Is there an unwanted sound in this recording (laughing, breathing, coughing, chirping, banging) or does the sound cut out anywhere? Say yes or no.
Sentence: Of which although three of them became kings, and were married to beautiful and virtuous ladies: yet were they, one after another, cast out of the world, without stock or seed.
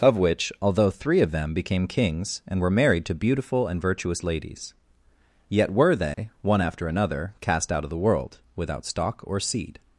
yes